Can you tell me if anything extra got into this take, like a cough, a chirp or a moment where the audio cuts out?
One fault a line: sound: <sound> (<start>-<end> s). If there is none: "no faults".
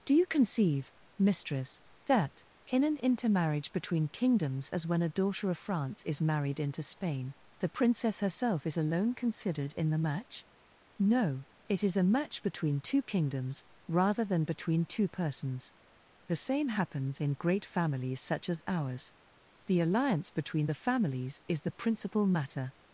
no faults